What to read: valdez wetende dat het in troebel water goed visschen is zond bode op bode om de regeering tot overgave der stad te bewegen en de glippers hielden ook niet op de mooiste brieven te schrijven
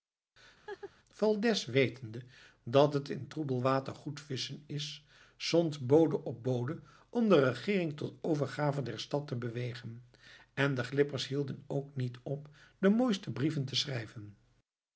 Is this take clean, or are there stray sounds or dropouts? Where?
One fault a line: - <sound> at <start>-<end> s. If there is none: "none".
- laugh at 0.7-0.9 s